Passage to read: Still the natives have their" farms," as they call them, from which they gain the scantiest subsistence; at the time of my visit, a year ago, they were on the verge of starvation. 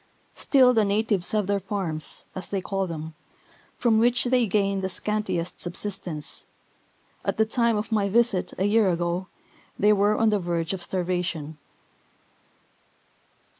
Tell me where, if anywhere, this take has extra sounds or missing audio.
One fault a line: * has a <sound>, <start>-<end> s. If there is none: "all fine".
all fine